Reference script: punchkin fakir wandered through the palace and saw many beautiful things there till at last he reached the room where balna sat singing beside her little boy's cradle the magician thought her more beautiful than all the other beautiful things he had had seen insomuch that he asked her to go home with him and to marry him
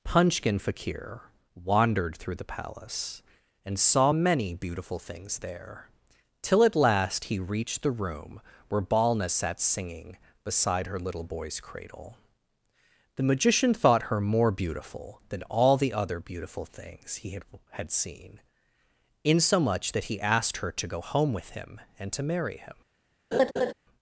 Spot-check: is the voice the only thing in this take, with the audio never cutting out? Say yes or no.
no